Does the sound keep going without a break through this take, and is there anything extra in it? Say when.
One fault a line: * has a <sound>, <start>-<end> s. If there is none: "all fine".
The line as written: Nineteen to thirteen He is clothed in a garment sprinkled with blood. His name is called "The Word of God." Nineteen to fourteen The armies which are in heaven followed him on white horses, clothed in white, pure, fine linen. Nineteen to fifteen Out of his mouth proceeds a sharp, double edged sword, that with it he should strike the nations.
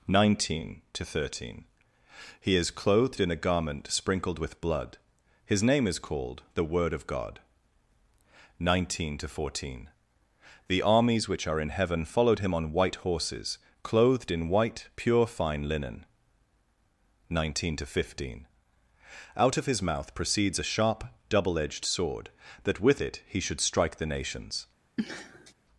* has a sniff, 25.0-25.5 s